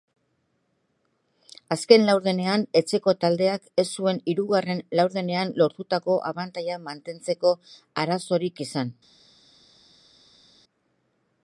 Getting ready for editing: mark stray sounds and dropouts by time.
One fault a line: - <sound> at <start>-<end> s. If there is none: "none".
none